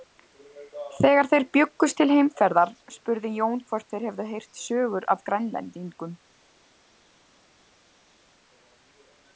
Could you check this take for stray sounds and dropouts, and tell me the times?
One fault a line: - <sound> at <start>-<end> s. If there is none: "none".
none